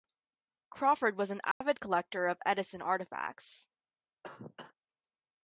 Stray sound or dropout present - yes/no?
yes